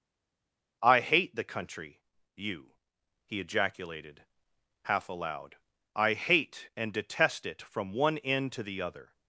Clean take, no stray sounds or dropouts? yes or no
yes